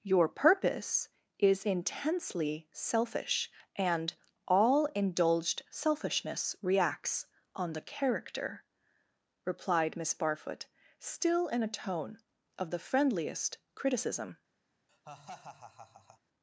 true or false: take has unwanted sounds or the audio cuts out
true